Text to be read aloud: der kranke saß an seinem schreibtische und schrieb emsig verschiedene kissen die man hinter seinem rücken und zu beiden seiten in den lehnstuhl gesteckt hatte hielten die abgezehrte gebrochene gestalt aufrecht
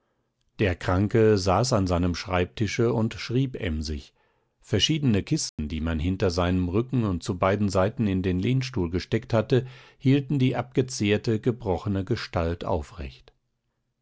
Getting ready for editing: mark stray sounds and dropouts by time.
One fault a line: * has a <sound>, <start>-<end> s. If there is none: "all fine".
* has a dropout, 5.5-5.6 s